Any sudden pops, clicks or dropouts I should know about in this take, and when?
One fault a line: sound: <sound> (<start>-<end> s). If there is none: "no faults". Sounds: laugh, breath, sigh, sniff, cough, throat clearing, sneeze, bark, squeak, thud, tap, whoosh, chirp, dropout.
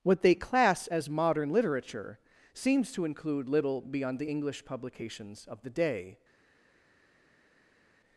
no faults